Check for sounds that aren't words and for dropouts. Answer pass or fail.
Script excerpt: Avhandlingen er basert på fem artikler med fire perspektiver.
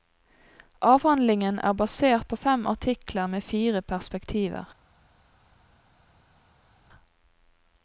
pass